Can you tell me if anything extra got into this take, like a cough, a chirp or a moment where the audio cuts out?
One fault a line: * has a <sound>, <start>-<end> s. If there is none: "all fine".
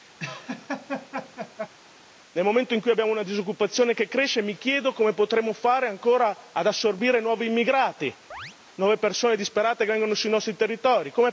* has a laugh, 0.2-1.7 s
* has a chirp, 8.3-8.6 s